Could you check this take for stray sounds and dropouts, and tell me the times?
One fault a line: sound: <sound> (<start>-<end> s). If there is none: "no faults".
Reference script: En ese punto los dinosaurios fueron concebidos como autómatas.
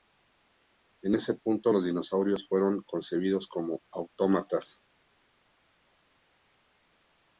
no faults